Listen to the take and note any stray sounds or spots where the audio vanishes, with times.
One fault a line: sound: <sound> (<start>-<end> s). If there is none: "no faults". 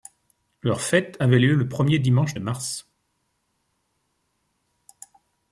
no faults